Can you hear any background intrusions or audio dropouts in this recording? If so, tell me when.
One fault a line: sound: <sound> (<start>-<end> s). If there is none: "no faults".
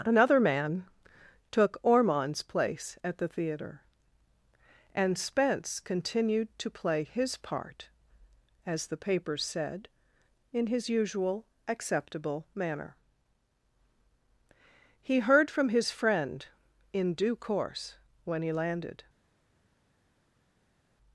no faults